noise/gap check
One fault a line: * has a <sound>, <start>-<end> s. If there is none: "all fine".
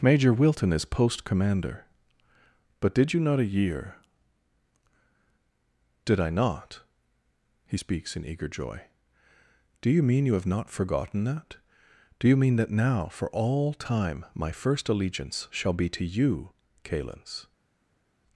all fine